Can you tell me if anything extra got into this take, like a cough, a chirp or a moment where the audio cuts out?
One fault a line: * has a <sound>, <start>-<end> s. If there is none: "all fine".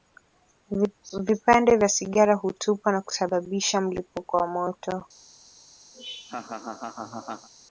* has a laugh, 5.9-7.5 s